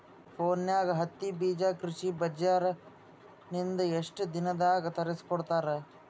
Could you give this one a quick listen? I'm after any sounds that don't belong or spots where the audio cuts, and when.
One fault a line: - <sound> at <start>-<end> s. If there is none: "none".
none